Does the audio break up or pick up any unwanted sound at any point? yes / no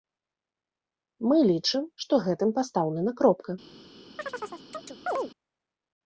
yes